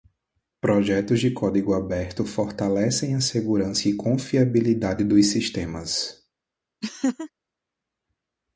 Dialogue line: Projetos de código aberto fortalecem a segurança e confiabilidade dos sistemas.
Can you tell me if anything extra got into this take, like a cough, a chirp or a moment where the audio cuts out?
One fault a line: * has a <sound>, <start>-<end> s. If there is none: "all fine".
* has a laugh, 6.8-7.3 s